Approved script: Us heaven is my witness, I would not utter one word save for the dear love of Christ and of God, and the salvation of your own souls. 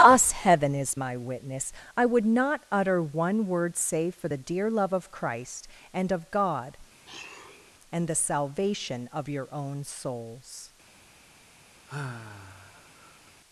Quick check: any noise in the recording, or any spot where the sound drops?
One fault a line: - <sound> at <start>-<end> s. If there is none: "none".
- sniff at 7.1-7.7 s
- sigh at 11.9-13.3 s